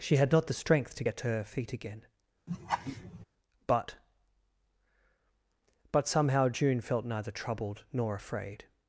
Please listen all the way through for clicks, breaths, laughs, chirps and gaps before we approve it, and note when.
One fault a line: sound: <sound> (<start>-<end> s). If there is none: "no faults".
sound: laugh (2.5-3.3 s)